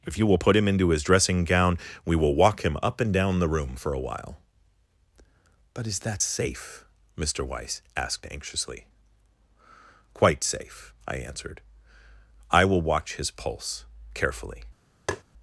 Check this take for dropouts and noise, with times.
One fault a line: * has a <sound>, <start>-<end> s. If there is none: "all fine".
* has a tap, 15.1-15.2 s